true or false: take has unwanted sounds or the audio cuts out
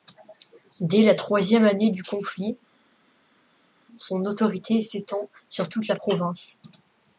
false